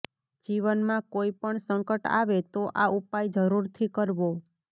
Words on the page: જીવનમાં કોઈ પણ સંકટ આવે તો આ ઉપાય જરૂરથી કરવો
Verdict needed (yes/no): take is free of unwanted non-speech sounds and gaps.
yes